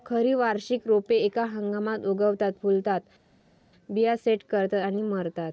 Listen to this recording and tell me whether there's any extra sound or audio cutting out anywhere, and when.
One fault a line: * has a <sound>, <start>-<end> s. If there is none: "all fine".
all fine